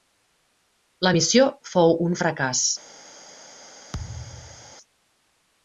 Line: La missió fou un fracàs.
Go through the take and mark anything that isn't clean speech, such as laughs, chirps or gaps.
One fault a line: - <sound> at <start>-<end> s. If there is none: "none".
- thud at 3.9-4.8 s